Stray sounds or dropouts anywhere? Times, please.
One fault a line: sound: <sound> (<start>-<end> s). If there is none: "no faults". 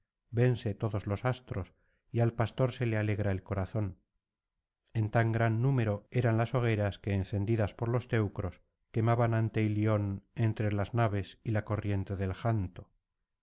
no faults